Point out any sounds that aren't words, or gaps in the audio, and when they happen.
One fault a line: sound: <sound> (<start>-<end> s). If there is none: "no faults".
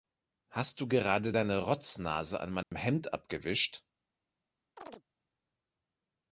sound: dropout (2.6-2.7 s)
sound: chirp (4.8-5.0 s)